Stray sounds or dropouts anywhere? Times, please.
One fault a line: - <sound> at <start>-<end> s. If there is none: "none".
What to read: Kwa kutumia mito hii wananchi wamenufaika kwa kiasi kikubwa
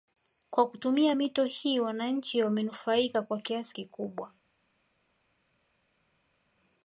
none